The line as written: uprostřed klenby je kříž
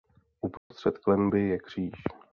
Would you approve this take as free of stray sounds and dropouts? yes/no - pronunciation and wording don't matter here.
no